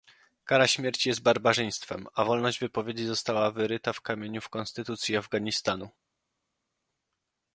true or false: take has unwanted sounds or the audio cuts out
false